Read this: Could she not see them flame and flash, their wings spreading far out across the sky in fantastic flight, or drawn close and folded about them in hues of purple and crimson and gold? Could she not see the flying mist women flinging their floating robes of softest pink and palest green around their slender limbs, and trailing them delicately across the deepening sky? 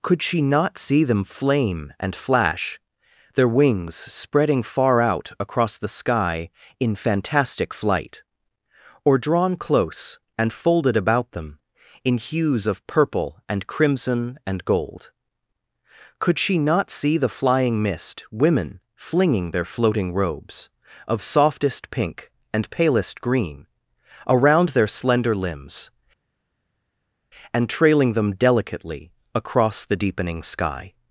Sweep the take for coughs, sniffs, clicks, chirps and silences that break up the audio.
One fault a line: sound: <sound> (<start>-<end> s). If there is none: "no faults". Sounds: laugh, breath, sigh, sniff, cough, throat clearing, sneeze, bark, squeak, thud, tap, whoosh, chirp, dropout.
no faults